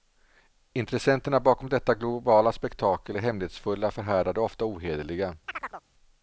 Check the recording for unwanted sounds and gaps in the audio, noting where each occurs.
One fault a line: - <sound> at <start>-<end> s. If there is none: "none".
- chirp at 5.5-5.8 s